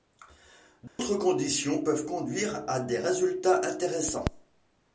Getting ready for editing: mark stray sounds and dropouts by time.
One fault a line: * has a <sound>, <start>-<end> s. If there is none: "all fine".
* has a dropout, 0.9-1.0 s